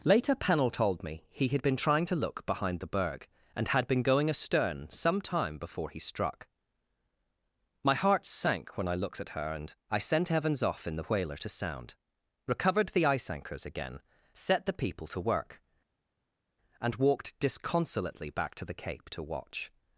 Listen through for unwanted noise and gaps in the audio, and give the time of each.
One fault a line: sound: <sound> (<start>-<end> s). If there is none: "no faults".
no faults